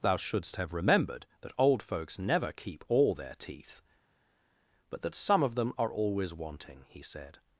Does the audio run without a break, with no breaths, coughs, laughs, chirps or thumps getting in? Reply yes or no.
yes